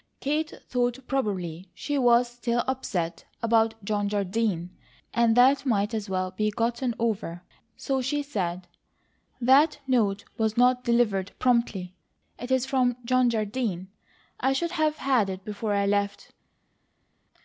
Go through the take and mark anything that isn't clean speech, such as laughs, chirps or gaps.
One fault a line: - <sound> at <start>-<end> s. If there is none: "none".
none